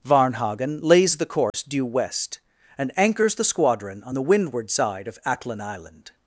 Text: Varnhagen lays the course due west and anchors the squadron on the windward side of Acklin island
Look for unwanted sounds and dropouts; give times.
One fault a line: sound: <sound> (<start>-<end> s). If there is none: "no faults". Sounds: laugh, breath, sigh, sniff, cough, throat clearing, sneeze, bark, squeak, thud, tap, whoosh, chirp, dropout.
sound: dropout (1.5-1.5 s)